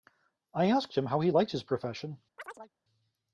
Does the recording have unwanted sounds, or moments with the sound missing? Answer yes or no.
yes